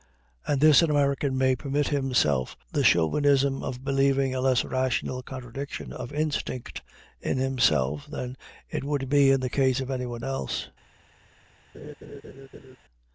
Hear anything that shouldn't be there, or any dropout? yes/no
yes